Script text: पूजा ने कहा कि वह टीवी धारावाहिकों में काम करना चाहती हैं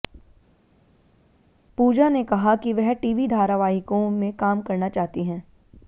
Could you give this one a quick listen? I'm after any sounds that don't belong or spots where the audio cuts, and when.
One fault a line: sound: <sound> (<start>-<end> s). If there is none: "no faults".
no faults